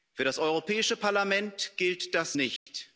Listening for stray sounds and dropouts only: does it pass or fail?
fail